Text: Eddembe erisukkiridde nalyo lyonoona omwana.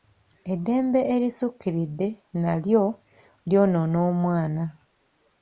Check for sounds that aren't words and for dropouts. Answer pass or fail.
pass